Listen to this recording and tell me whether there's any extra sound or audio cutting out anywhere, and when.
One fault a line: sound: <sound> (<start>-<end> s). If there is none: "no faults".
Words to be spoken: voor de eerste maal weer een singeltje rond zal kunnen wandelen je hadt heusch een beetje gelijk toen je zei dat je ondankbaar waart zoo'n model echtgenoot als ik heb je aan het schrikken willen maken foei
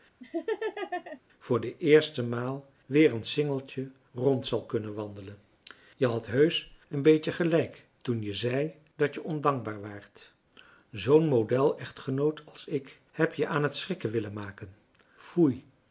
sound: laugh (0.2-1.2 s)